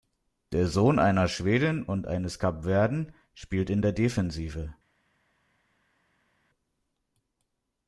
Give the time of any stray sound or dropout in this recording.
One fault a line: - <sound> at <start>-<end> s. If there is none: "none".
none